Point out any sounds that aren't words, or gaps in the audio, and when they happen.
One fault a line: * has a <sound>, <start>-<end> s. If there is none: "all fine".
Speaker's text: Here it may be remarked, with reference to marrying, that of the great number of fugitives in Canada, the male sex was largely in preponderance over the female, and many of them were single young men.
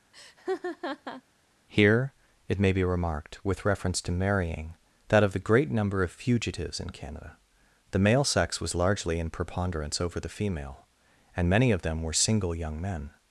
* has a laugh, 0.1-1.2 s